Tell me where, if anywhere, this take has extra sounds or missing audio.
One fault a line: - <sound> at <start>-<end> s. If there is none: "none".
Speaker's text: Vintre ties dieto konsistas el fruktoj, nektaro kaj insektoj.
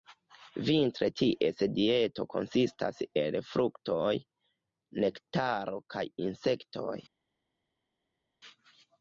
none